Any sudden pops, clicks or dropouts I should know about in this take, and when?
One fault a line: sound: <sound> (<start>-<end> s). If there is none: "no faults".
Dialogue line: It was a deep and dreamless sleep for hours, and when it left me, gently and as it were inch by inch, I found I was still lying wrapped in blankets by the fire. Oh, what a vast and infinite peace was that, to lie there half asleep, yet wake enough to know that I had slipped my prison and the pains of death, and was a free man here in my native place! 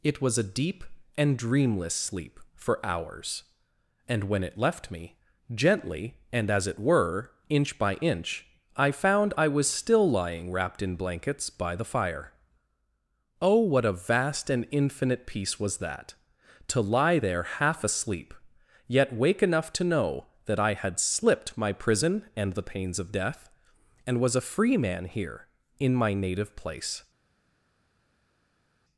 no faults